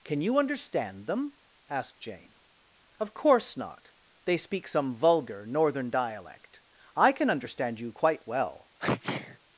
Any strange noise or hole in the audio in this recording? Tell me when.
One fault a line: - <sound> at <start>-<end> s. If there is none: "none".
- sneeze at 8.8-9.4 s